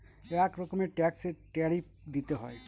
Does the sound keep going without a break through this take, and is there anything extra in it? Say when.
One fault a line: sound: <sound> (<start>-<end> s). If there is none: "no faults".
no faults